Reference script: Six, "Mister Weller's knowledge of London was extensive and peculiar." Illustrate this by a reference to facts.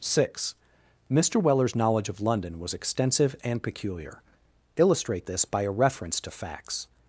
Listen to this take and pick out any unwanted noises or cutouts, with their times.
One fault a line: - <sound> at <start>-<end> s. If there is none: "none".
none